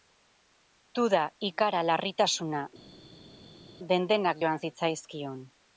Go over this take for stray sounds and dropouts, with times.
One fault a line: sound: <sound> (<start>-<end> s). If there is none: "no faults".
no faults